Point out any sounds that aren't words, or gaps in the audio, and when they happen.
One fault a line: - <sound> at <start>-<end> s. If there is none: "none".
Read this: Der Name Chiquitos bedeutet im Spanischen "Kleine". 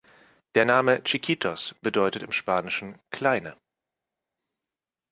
none